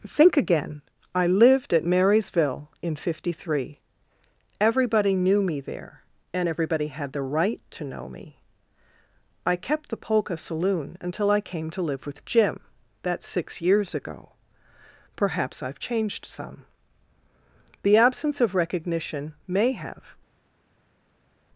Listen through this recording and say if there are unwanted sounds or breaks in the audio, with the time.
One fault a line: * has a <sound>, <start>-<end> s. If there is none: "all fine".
all fine